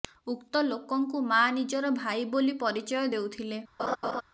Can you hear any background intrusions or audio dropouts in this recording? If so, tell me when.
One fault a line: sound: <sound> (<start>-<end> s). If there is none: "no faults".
sound: laugh (3.8-4.2 s)